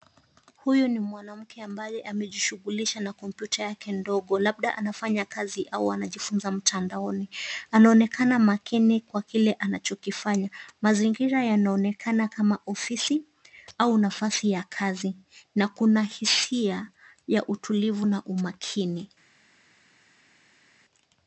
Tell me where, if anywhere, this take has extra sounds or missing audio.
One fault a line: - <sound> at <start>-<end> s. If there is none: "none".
none